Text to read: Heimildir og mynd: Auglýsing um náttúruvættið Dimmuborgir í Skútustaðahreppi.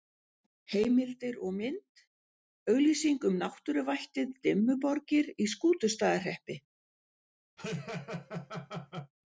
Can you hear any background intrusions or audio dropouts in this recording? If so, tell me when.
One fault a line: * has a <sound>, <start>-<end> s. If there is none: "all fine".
* has a laugh, 7.6-9.1 s